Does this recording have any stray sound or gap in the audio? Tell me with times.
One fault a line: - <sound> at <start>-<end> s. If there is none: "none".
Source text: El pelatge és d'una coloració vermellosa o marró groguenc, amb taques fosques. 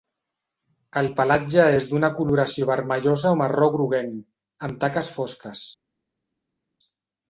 none